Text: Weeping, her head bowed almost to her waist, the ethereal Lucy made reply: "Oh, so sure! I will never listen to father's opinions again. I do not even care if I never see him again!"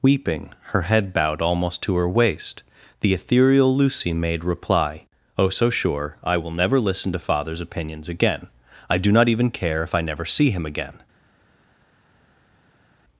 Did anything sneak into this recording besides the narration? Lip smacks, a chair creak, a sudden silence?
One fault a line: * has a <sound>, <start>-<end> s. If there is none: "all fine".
all fine